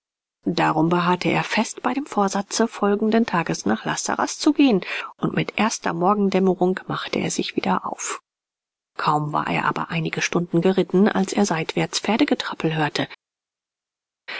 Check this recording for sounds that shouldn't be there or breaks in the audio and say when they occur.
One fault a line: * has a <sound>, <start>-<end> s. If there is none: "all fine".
all fine